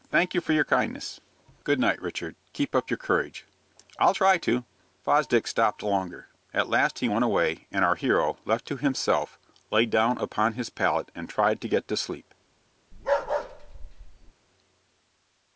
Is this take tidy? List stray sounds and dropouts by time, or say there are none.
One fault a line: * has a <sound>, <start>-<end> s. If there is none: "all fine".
* has a bark, 12.9-14.3 s